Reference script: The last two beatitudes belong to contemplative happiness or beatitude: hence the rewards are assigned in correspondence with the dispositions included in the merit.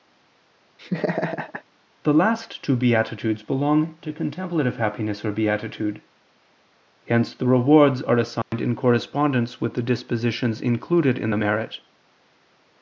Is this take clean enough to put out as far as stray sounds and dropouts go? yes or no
no